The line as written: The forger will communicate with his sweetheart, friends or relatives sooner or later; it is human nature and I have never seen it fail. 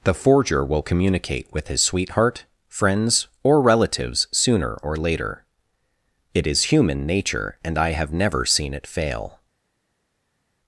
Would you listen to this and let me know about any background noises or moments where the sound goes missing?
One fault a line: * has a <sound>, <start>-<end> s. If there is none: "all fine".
all fine